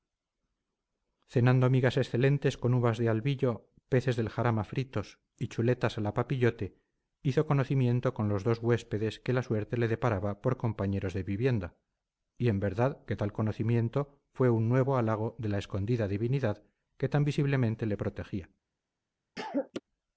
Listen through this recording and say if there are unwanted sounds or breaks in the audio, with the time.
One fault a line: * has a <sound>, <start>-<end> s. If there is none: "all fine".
* has a cough, 19.4-19.8 s